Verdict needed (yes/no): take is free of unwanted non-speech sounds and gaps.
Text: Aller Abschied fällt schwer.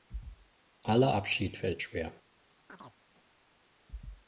no